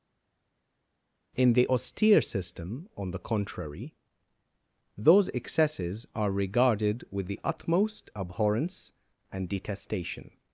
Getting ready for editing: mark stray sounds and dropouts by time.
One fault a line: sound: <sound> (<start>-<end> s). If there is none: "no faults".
no faults